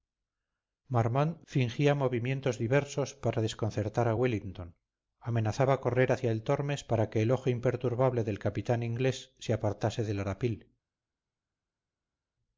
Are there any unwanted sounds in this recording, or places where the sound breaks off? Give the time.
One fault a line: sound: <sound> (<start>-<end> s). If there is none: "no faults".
no faults